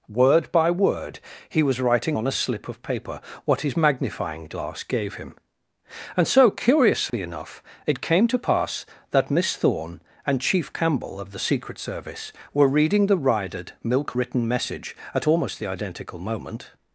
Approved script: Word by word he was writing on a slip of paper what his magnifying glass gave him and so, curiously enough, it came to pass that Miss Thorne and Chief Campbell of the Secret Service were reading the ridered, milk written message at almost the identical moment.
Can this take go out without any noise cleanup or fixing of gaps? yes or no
no